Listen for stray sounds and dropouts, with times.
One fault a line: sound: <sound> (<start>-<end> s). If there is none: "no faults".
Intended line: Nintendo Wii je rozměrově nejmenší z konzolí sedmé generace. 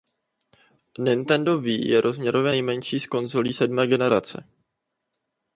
no faults